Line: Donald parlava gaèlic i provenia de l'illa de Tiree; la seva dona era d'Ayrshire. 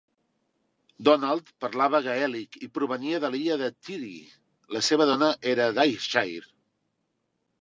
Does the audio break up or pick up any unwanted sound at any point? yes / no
no